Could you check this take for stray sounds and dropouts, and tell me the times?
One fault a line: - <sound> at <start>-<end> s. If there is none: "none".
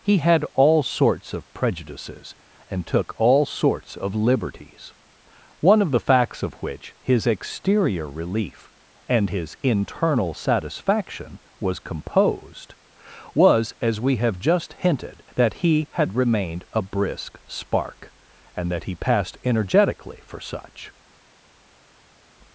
none